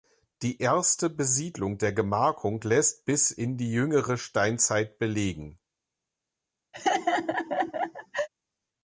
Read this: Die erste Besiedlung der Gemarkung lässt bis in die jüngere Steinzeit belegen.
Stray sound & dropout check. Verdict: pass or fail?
fail